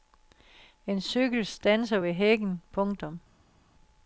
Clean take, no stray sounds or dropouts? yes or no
yes